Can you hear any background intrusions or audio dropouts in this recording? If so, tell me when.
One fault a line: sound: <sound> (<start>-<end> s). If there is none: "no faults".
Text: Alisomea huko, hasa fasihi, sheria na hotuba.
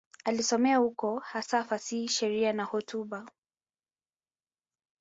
no faults